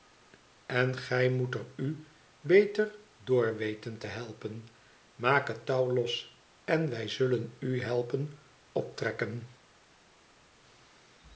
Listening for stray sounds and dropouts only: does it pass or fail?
pass